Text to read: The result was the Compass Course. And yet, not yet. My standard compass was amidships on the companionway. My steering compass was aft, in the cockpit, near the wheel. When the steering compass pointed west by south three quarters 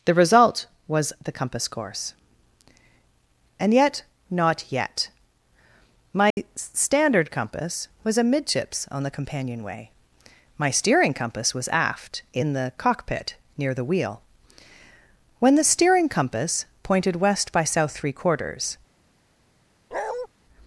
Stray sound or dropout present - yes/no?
yes